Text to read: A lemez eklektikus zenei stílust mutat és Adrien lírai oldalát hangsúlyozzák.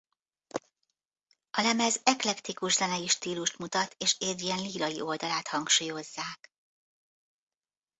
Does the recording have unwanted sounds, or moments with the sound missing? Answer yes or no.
no